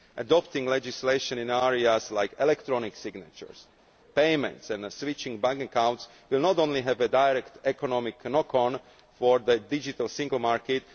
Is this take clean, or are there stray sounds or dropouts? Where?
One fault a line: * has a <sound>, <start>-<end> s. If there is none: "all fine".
all fine